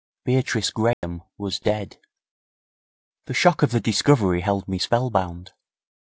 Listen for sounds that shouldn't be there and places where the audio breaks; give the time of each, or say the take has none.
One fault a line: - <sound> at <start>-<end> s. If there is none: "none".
- dropout at 0.9-1.0 s